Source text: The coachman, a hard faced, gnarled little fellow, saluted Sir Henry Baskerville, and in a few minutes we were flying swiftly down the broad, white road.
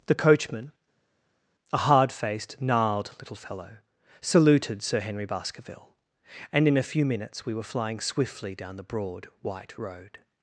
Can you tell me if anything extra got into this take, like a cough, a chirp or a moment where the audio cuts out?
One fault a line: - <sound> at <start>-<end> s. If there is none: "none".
none